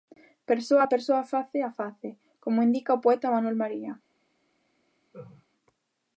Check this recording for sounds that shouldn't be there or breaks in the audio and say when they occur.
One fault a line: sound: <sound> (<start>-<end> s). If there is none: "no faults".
sound: laugh (5.1-5.5 s)